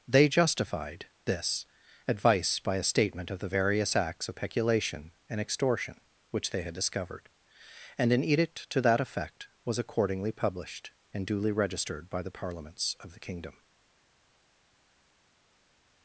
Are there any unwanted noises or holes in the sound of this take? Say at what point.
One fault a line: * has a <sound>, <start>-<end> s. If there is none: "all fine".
all fine